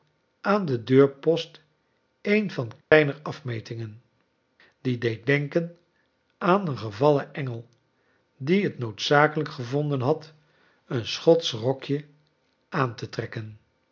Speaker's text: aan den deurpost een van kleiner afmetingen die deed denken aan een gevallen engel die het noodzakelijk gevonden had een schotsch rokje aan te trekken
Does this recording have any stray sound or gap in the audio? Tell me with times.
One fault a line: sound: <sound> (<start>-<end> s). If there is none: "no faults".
sound: dropout (2.8-2.9 s)